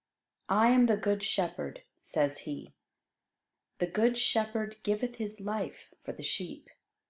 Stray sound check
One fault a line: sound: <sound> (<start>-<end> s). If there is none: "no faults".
no faults